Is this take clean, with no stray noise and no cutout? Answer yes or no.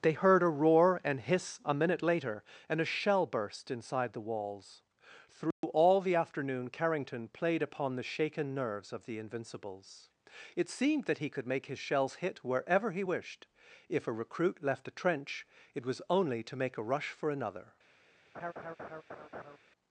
no